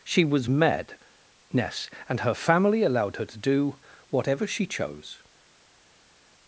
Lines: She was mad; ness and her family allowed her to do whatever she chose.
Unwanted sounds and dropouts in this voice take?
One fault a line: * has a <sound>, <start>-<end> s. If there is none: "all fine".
all fine